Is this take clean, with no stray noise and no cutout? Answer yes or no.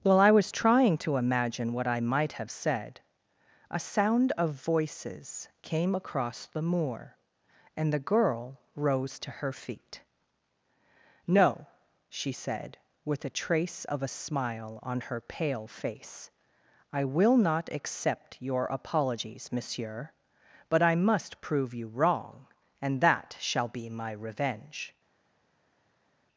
yes